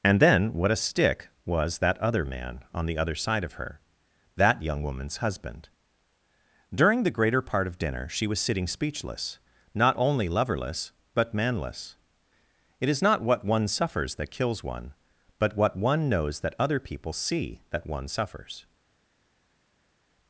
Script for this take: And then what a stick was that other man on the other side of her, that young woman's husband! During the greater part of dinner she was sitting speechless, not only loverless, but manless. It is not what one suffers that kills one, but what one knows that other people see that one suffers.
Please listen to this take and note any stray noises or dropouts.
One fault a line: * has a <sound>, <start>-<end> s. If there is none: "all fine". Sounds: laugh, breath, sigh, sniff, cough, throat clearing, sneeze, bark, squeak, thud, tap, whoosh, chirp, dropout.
all fine